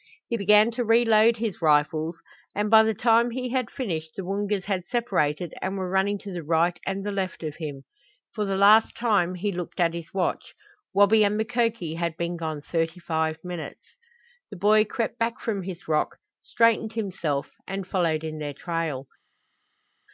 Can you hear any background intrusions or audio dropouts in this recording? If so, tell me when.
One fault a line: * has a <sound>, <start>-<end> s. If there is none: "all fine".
all fine